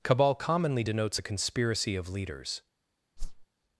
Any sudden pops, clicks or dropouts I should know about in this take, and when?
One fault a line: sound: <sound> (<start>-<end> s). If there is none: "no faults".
sound: whoosh (3.2-3.5 s)